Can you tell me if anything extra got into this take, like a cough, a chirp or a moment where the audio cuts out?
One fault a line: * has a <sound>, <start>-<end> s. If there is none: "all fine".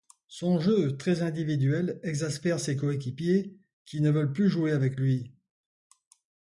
all fine